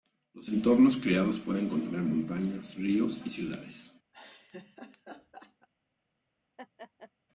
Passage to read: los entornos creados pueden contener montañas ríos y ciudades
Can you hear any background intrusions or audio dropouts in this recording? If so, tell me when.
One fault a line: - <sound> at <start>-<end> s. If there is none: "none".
- laugh at 4.1-5.7 s
- laugh at 6.6-7.1 s